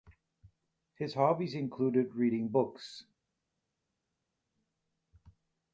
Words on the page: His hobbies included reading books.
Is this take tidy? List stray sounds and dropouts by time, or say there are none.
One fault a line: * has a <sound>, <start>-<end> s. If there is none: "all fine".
all fine